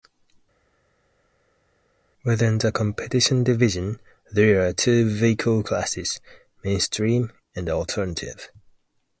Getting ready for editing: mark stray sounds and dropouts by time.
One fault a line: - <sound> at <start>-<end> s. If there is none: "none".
none